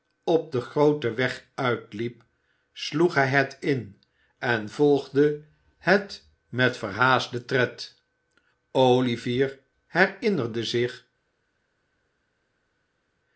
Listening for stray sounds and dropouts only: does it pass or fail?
pass